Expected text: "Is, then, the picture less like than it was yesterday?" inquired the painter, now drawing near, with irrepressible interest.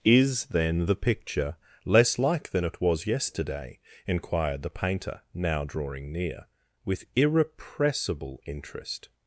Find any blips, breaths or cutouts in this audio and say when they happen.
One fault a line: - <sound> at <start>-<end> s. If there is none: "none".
none